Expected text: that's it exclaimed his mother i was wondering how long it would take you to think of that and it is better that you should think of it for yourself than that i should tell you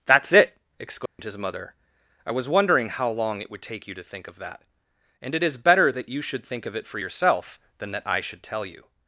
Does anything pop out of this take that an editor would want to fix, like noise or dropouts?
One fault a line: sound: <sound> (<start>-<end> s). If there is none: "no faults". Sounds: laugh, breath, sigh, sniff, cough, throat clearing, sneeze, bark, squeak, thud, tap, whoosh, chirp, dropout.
sound: dropout (1.1-1.2 s)